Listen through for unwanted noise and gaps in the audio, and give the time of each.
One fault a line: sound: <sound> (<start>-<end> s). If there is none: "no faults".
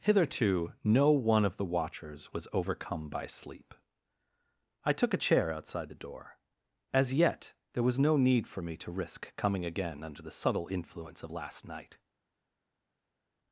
no faults